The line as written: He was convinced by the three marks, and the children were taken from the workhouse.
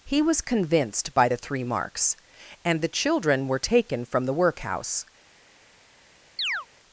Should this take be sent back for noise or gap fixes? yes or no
yes